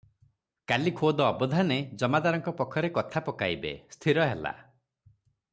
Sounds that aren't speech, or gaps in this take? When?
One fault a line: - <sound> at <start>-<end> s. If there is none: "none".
none